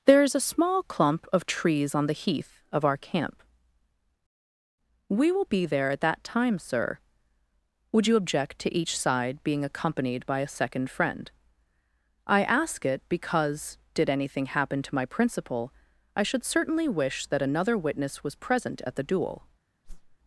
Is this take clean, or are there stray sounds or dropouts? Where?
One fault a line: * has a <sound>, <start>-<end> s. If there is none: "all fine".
* has a whoosh, 19.8-20.2 s